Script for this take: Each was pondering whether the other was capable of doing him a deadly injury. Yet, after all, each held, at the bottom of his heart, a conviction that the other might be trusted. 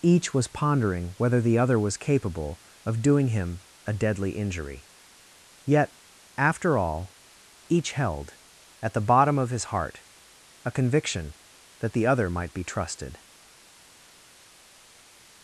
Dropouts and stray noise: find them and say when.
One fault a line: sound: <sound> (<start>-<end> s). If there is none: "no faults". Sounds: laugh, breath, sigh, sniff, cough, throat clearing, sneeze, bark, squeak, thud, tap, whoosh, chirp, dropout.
no faults